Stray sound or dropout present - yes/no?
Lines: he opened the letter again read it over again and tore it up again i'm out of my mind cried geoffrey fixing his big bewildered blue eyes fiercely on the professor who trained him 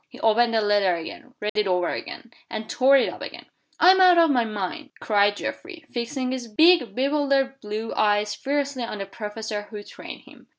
yes